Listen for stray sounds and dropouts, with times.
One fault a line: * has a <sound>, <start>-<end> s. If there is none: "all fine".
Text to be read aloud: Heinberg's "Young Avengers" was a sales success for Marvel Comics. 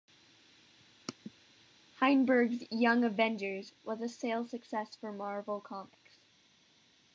all fine